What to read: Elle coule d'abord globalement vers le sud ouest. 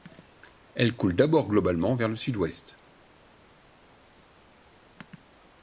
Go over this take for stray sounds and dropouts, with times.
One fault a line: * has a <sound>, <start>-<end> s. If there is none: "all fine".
all fine